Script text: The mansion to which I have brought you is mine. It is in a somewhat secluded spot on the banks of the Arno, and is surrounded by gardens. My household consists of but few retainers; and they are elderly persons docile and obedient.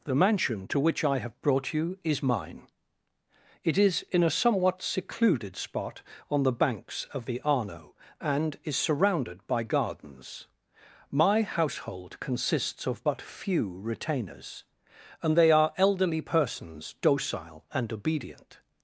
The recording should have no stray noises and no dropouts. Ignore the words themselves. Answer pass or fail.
pass